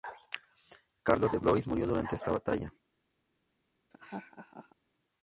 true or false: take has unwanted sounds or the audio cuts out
true